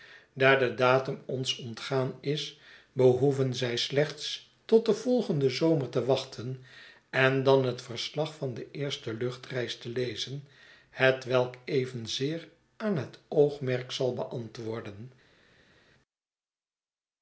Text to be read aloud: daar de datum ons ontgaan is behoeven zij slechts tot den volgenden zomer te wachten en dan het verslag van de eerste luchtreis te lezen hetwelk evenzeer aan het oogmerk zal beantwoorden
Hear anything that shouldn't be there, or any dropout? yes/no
no